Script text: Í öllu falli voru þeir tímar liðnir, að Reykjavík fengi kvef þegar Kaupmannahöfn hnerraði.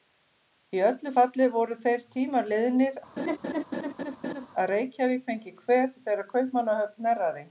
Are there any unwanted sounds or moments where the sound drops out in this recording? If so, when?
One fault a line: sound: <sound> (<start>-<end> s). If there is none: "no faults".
sound: laugh (3.2-4.5 s)